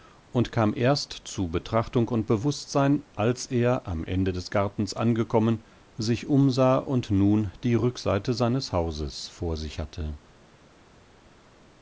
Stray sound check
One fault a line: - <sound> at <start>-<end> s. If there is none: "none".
none